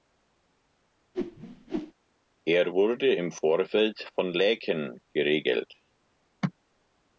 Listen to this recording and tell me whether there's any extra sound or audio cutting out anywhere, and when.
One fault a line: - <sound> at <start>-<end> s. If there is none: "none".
- whoosh at 1.1-1.9 s